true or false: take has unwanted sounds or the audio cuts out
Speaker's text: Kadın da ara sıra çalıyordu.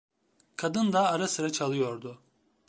false